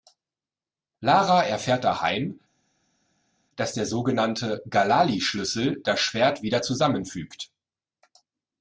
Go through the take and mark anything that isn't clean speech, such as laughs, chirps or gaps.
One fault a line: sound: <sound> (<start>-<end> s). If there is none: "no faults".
no faults